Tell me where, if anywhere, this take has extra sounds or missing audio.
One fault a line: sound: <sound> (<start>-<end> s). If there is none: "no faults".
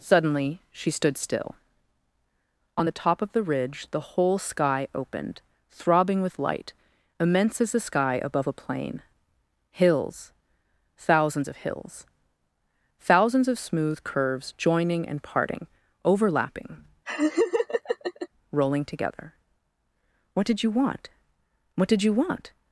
sound: laugh (17.0-18.3 s)